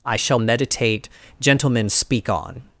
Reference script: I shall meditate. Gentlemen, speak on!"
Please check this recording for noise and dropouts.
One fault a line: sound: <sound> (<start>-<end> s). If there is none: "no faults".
no faults